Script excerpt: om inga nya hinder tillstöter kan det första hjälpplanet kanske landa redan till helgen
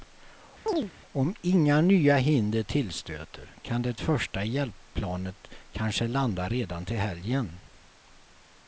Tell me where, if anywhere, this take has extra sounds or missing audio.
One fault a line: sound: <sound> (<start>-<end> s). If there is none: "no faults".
sound: chirp (0.7-0.9 s)